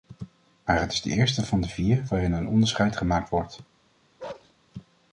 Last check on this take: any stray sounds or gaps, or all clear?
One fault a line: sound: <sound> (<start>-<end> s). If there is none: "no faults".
sound: bark (4.2-4.5 s)